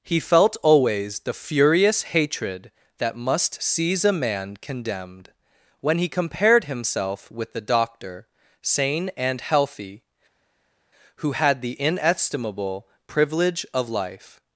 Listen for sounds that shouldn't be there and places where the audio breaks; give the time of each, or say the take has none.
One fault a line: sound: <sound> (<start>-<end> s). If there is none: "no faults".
no faults